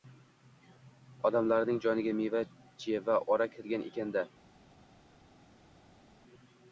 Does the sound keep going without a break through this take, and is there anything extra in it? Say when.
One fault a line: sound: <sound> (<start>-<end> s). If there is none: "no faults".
no faults